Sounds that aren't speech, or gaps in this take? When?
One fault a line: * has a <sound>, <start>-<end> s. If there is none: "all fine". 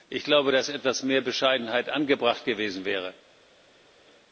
all fine